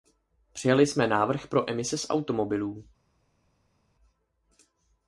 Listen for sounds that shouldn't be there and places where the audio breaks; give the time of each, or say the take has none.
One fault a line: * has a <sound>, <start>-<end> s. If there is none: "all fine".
all fine